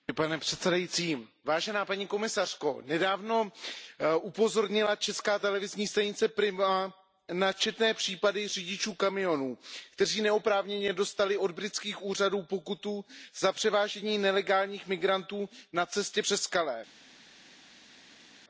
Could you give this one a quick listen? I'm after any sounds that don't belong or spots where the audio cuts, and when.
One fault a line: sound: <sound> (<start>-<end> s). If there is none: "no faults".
no faults